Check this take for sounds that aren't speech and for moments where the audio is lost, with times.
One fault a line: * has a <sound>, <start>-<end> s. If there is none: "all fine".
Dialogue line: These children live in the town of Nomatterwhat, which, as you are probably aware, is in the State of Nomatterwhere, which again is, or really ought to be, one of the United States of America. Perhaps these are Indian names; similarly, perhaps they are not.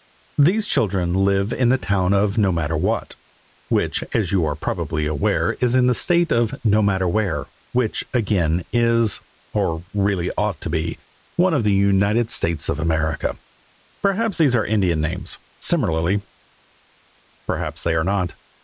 all fine